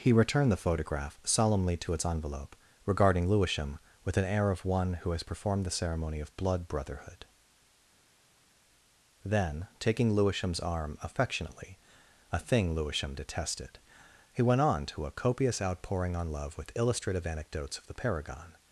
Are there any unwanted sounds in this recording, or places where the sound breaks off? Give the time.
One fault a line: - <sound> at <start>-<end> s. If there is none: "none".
none